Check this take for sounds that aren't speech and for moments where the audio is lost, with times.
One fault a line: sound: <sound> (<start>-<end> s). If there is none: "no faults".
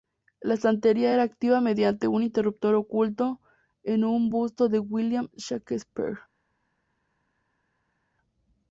no faults